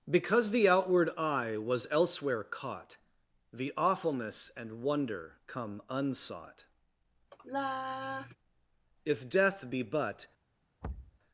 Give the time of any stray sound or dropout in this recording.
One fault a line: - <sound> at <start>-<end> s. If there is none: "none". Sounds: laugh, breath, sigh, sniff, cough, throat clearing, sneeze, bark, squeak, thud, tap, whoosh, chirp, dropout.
- sigh at 7.3-8.4 s
- thud at 10.8-11.2 s